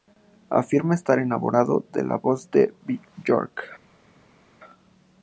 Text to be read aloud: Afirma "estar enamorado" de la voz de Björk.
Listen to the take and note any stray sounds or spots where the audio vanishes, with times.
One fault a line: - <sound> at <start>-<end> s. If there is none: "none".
none